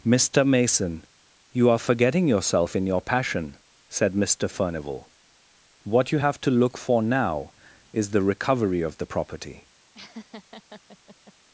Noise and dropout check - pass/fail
fail